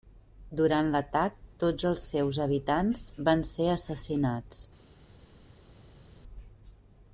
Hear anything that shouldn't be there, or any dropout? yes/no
no